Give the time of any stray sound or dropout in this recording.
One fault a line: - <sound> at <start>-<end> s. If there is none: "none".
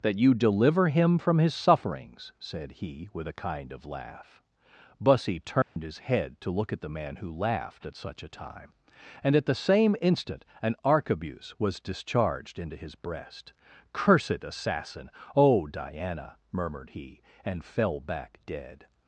- dropout at 5.6-5.8 s